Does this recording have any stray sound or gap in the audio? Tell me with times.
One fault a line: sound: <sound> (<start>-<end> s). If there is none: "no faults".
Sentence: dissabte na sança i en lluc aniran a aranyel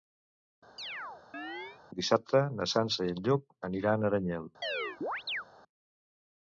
sound: chirp (0.8-1.8 s)
sound: chirp (4.6-5.4 s)